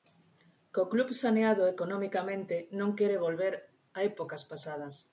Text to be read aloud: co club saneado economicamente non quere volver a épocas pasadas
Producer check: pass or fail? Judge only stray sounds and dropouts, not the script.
pass